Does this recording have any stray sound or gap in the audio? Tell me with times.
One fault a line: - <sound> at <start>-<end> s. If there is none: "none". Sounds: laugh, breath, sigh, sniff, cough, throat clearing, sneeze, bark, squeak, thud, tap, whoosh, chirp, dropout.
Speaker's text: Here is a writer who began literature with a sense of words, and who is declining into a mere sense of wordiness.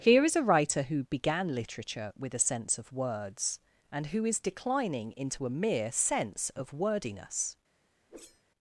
- whoosh at 8.1-8.4 s